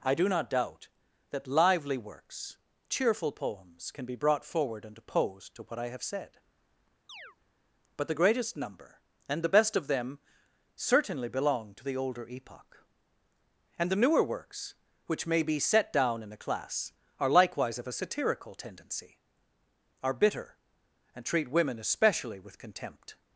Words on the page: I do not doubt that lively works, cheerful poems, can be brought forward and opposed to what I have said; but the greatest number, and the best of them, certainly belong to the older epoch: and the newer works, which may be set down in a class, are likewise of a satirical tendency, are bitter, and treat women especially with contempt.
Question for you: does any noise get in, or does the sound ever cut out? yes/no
yes